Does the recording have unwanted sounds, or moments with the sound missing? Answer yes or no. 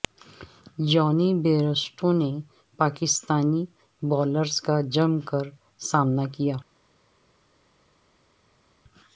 no